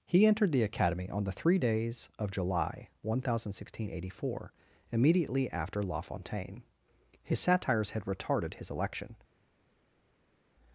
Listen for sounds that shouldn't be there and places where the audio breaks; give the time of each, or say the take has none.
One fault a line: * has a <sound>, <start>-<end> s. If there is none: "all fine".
all fine